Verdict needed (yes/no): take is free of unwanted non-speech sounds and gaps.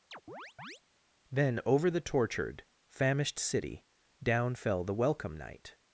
no